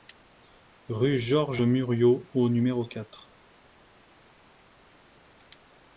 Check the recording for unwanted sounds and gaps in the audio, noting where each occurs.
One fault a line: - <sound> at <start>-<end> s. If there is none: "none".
none